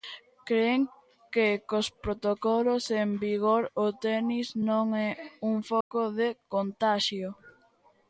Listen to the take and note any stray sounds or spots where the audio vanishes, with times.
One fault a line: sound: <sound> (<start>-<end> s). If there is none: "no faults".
sound: dropout (5.8-5.9 s)